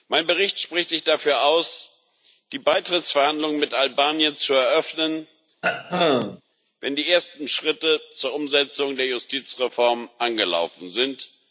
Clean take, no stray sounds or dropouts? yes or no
no